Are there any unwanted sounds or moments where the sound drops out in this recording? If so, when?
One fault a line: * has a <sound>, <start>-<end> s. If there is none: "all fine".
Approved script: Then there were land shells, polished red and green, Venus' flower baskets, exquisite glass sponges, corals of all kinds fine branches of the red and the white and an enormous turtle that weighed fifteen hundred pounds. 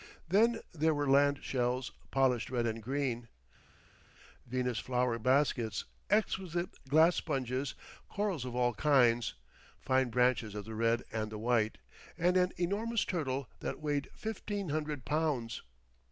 all fine